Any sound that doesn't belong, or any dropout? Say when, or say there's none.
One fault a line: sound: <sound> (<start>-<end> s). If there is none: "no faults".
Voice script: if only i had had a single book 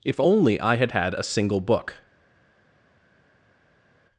no faults